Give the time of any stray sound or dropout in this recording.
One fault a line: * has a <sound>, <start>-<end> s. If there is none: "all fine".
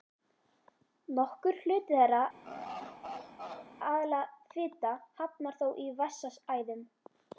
* has a laugh, 2.4-3.7 s